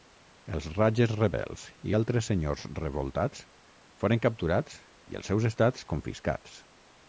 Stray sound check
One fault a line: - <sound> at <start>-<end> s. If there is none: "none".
none